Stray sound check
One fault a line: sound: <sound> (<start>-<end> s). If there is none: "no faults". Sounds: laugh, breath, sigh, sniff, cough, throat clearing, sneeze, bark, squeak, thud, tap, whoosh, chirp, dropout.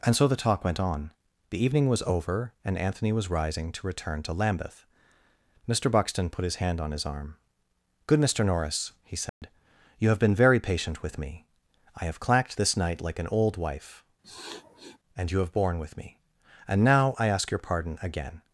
sound: dropout (9.3-9.4 s)
sound: sniff (14.2-15.0 s)